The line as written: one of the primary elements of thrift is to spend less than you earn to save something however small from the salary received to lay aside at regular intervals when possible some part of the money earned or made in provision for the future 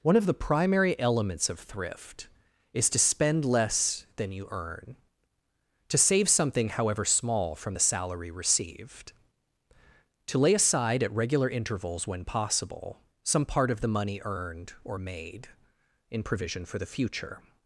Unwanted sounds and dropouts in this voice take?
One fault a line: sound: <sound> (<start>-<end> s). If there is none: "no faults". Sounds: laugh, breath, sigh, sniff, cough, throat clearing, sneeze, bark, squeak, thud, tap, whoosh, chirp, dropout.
no faults